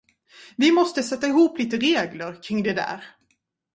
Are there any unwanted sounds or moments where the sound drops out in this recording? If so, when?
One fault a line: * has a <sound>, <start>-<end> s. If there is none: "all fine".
all fine